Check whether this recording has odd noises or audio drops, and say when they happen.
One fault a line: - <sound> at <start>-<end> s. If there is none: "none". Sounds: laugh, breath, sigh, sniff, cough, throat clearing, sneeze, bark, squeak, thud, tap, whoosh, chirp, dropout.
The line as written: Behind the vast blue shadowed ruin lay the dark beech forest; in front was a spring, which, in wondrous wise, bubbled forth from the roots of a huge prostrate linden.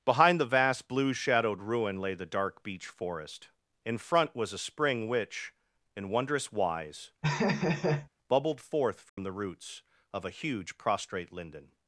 - laugh at 7.2-8.1 s
- dropout at 9.1-9.2 s